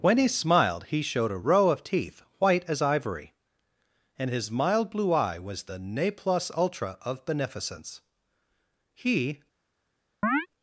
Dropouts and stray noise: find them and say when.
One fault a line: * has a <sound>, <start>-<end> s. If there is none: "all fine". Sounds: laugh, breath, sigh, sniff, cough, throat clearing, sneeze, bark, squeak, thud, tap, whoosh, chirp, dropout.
* has a chirp, 10.2-10.5 s